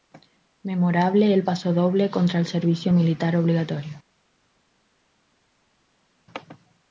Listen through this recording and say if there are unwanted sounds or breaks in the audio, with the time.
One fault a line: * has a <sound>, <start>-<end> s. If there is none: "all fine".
all fine